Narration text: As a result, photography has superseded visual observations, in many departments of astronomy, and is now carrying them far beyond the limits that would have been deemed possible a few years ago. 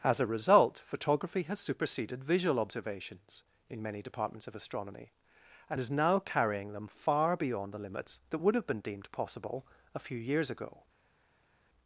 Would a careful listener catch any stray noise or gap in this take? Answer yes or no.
no